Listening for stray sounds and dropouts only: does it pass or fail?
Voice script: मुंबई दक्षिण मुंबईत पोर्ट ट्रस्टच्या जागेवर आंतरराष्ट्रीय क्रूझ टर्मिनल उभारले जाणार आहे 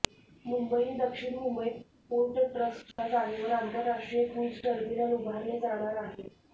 fail